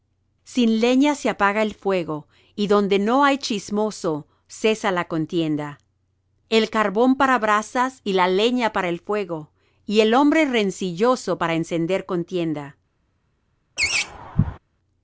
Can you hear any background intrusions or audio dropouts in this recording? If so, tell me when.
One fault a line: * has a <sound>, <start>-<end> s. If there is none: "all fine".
* has a laugh, 13.8-14.6 s